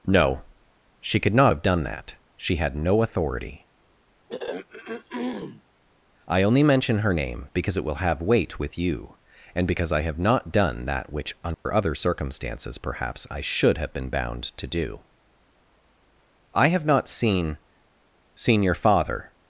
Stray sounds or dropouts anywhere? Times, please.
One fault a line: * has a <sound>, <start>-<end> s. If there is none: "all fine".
* has a throat clearing, 4.3-5.6 s
* has a dropout, 11.5-11.7 s